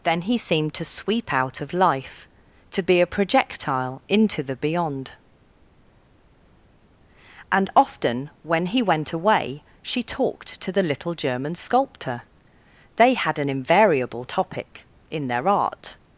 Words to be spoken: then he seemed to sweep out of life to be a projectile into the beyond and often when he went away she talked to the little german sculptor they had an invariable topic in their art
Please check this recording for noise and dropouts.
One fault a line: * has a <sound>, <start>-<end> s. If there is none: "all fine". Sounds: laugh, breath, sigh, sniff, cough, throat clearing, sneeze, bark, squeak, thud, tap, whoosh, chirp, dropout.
all fine